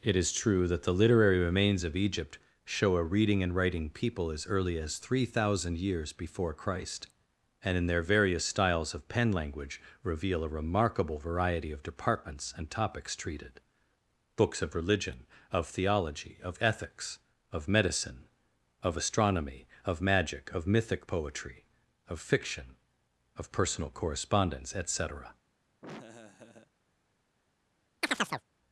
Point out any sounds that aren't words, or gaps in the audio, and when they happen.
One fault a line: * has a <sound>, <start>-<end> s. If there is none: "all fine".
* has a laugh, 25.8-26.7 s
* has a chirp, 28.0-28.4 s